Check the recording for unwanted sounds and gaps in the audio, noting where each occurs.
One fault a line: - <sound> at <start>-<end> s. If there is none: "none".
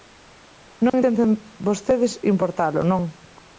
- dropout at 0.9-0.9 s